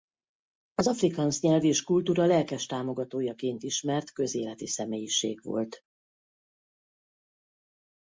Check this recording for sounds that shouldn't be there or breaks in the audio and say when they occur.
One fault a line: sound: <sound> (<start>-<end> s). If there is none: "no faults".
no faults